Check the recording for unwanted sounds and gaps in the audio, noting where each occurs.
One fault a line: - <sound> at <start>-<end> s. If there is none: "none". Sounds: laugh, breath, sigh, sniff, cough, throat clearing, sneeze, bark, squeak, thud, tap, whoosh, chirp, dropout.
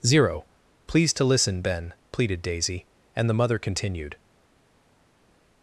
none